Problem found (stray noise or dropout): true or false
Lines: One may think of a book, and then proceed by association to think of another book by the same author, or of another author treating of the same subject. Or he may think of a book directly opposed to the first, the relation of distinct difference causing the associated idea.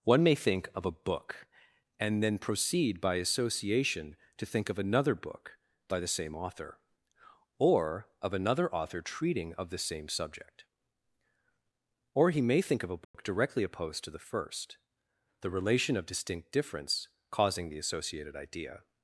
true